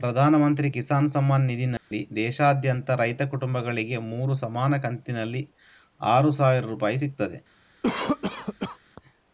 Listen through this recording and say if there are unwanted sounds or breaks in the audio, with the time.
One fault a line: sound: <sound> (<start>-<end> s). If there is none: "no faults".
sound: dropout (1.8-1.9 s)
sound: cough (7.8-8.8 s)